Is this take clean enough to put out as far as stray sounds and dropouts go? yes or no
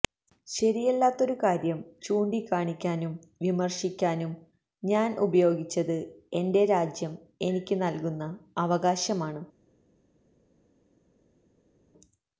yes